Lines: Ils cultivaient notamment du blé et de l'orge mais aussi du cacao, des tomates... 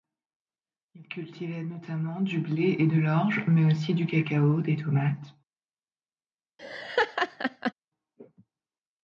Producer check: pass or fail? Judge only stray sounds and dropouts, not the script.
fail